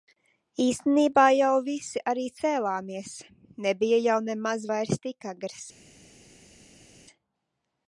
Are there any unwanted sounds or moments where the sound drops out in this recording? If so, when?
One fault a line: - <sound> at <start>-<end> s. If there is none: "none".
none